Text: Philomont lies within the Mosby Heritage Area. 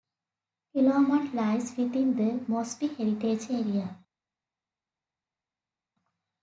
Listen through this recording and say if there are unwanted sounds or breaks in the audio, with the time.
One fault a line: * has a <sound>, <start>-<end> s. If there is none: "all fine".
all fine